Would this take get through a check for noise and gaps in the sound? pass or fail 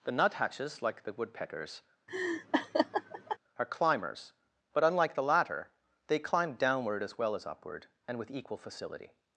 fail